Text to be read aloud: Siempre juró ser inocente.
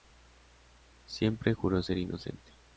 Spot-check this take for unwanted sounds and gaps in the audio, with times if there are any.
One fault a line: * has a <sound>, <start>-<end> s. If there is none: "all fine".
all fine